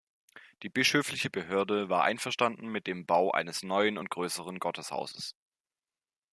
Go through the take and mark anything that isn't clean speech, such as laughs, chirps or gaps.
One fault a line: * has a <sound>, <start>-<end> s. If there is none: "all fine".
all fine